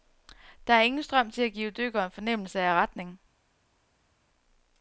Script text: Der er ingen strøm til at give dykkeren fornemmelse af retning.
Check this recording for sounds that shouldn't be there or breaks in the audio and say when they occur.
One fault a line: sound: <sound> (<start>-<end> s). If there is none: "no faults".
no faults